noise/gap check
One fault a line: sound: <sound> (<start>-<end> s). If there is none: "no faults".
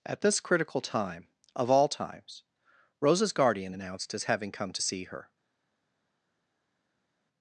no faults